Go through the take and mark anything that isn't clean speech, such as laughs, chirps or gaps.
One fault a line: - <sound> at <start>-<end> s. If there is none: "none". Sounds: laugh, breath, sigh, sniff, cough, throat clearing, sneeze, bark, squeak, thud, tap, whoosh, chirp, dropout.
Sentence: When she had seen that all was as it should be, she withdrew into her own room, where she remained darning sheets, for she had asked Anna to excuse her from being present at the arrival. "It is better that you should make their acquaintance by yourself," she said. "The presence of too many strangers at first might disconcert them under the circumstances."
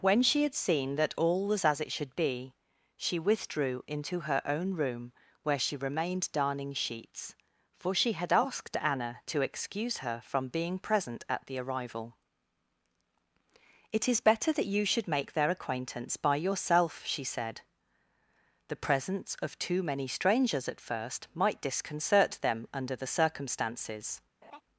- laugh at 24.4-24.6 s